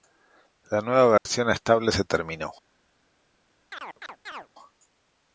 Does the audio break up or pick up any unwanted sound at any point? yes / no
yes